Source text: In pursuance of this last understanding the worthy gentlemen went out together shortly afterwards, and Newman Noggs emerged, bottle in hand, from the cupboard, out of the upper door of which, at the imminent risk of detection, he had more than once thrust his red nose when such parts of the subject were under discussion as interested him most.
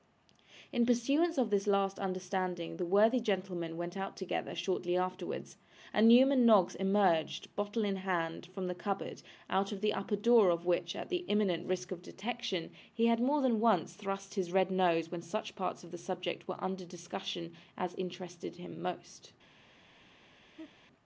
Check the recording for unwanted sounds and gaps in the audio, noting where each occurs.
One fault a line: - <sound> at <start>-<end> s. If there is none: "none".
- laugh at 20.5-20.7 s